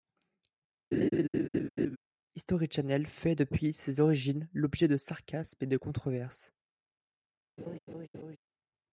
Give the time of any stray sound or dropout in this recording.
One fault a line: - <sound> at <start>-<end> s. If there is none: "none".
- laugh at 0.9-2.0 s
- laugh at 7.6-8.4 s